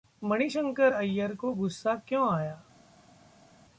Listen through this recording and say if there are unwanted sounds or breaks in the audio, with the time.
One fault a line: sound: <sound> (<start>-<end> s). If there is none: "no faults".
no faults